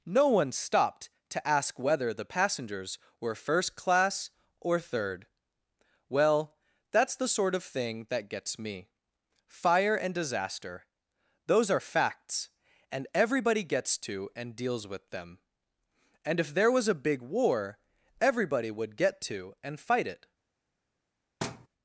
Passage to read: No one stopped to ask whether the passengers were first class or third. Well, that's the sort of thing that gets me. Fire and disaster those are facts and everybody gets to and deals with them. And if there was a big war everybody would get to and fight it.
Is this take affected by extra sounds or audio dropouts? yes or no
yes